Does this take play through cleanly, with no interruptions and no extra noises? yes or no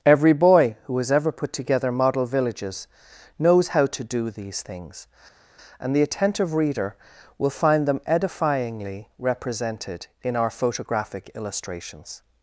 yes